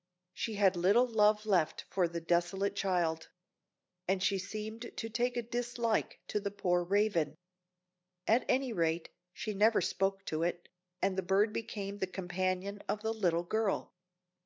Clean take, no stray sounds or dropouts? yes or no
yes